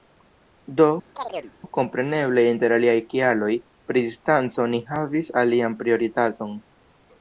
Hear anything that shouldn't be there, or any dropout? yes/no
yes